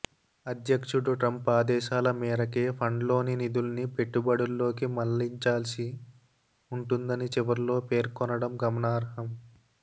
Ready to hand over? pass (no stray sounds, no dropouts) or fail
pass